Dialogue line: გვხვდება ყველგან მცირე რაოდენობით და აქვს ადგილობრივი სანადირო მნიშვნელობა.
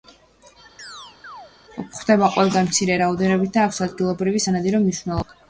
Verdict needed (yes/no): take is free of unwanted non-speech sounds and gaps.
no